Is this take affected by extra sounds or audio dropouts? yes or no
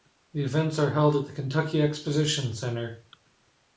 no